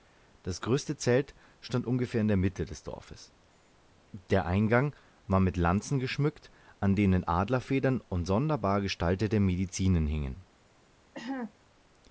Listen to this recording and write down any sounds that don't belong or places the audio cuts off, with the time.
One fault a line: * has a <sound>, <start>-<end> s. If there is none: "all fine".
* has a cough, 11.1-11.5 s